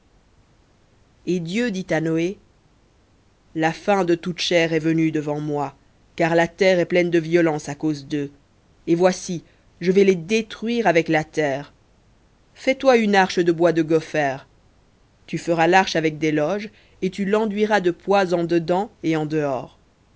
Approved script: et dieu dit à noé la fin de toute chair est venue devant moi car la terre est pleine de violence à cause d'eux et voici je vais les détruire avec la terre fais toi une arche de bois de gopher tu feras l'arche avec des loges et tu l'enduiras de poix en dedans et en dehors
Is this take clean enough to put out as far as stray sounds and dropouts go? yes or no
yes